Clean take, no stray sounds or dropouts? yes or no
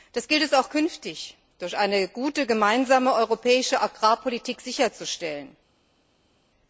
yes